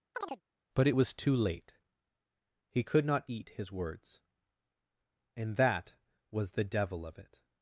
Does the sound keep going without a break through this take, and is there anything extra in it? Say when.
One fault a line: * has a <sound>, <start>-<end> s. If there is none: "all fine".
* has a chirp, 0.1-0.4 s